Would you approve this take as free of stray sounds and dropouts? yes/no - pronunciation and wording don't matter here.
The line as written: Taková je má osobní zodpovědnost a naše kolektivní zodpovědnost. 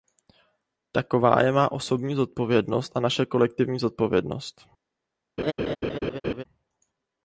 no